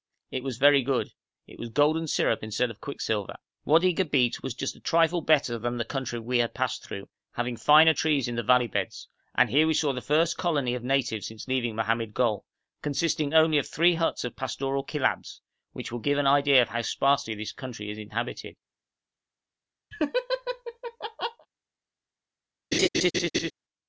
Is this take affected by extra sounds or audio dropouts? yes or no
yes